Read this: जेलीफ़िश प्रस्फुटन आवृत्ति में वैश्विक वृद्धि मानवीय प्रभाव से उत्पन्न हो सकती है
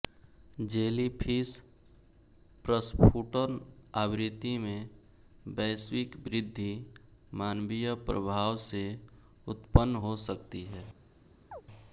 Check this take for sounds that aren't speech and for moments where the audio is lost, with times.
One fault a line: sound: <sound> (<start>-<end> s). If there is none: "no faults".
sound: chirp (11.5-11.6 s)